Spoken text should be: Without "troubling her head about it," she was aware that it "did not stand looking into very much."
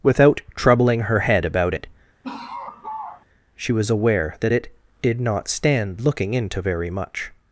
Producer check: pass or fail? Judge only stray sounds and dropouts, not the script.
fail